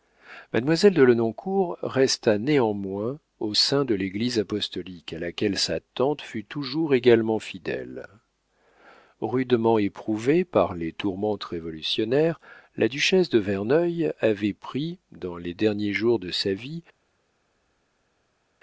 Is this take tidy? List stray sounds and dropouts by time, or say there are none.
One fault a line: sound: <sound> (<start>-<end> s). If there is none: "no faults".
no faults